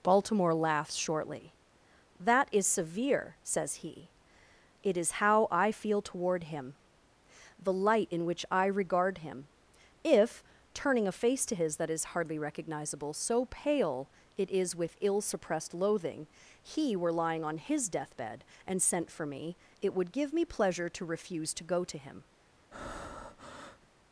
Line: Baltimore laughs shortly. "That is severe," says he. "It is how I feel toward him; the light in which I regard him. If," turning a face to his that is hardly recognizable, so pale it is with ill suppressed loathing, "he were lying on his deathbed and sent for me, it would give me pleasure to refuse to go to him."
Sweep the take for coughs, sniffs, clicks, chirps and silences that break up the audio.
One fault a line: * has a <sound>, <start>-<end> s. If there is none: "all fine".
* has a breath, 22.7-23.9 s